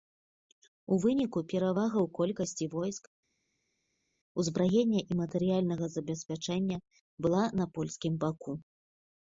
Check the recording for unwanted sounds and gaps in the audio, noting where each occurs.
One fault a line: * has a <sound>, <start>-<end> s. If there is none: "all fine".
all fine